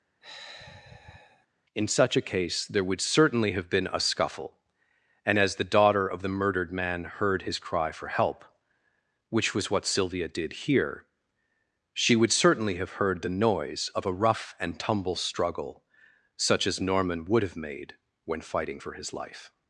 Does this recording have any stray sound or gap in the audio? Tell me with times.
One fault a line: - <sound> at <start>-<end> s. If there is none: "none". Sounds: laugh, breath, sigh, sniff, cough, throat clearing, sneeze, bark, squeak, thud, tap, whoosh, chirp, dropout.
- sigh at 0.2-1.5 s